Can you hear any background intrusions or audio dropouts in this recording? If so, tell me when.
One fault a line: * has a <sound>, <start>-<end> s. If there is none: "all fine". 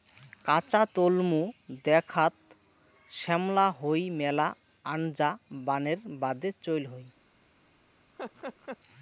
* has a laugh, 8.2-8.8 s